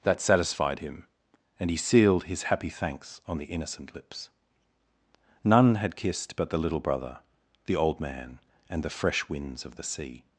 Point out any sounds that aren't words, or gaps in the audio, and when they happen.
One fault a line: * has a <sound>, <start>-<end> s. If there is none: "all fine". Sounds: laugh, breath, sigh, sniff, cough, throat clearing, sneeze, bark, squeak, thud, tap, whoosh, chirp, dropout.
all fine